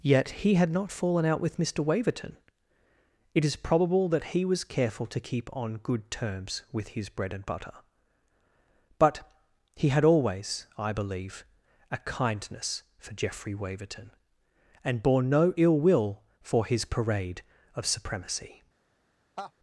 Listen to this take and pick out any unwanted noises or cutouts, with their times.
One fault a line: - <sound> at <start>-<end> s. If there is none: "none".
- laugh at 19.4-19.5 s